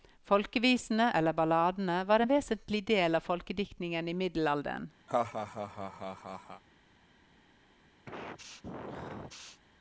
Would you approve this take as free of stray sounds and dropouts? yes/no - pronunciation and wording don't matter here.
no